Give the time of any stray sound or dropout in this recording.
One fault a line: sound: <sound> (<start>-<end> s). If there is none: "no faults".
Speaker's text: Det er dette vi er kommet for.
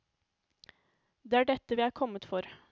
no faults